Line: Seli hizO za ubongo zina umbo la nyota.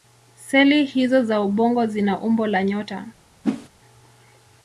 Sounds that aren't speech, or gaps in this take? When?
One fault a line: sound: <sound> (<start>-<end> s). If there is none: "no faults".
sound: whoosh (3.4-3.7 s)